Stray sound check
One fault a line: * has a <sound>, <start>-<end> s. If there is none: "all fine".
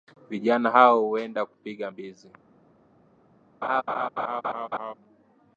* has a laugh, 3.6-4.9 s